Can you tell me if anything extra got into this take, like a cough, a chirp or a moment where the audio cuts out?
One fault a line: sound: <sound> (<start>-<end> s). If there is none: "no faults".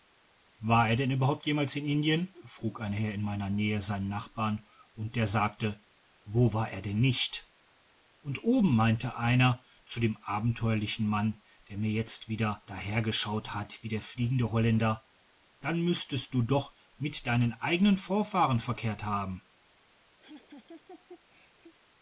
sound: laugh (20.2-21.7 s)